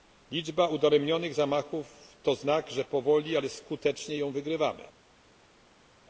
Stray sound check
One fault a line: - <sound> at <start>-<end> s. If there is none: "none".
none